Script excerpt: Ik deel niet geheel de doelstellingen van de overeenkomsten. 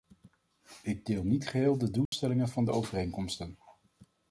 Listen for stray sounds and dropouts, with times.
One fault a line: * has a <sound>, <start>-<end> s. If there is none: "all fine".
* has a dropout, 2.1-2.1 s